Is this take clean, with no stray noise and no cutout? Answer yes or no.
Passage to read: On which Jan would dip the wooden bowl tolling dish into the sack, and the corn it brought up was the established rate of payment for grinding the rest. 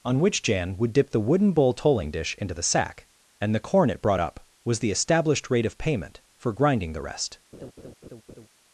no